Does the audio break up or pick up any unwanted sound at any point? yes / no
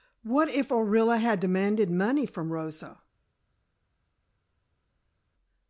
no